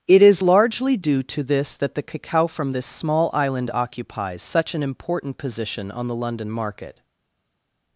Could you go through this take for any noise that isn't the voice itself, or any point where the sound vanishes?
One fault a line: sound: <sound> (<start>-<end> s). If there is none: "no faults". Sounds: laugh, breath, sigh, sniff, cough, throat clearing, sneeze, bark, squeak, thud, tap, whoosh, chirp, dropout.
no faults